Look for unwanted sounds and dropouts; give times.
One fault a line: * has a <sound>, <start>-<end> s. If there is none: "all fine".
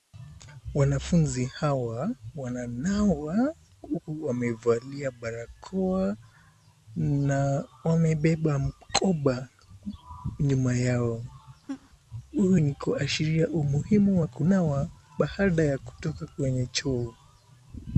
* has a laugh, 11.7-11.9 s